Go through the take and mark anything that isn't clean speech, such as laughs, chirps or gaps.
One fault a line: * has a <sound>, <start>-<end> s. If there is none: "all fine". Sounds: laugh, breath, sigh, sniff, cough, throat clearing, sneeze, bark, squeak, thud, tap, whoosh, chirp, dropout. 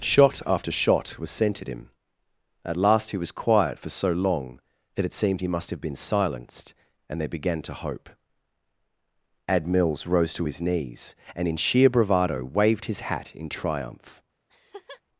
* has a laugh, 14.5-15.0 s